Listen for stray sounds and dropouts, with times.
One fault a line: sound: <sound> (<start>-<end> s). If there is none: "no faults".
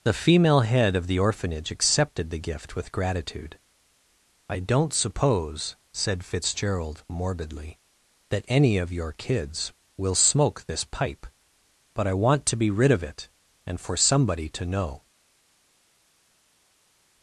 no faults